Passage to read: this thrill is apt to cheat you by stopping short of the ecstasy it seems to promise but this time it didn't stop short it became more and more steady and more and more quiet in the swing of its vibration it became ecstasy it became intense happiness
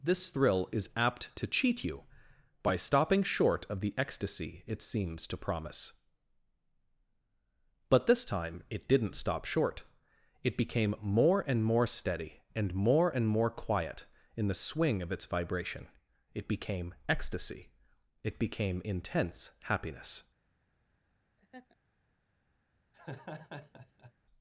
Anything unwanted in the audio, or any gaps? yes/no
yes